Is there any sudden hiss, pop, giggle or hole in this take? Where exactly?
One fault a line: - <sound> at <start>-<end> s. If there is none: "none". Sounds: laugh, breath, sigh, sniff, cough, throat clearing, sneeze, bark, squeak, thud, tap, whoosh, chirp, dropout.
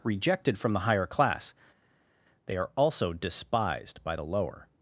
none